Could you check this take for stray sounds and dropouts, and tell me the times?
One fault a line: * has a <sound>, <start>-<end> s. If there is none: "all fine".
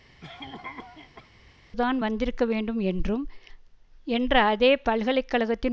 * has a cough, 0.2-1.3 s